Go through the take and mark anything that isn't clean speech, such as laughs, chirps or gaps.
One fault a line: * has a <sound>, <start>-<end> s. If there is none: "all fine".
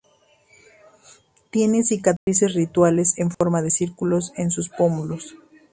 * has a dropout, 2.2-2.3 s
* has a dropout, 3.3-3.4 s